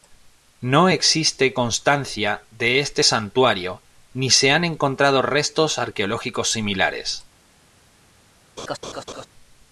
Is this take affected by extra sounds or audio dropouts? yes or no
yes